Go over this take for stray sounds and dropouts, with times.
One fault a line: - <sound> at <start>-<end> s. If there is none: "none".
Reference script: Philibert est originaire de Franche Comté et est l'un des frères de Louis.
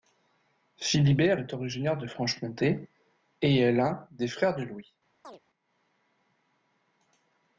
- chirp at 5.2-5.4 s